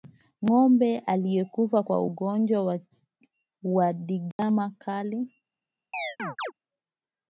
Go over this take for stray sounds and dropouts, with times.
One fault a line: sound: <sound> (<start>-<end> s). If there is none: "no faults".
sound: dropout (4.3-4.4 s)
sound: chirp (5.9-6.5 s)